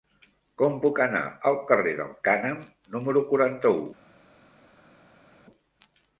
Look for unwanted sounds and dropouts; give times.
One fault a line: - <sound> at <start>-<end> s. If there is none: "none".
none